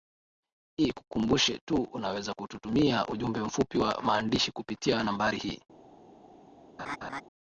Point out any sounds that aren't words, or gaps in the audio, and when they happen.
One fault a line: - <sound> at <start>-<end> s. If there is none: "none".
- laugh at 6.8-7.2 s